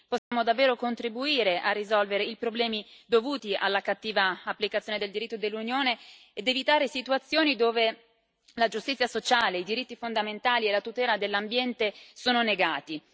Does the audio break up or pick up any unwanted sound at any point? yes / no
yes